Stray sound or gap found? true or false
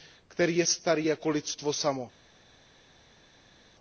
false